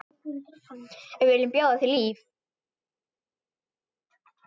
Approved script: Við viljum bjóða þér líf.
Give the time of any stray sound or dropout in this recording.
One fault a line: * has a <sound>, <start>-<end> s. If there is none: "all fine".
all fine